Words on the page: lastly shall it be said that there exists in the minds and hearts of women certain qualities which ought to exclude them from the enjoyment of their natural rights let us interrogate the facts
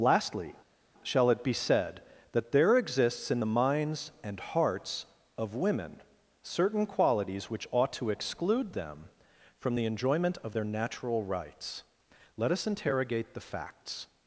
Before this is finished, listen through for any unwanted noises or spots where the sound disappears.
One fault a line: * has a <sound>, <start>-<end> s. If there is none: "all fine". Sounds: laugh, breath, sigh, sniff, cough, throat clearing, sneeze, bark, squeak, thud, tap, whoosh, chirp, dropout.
all fine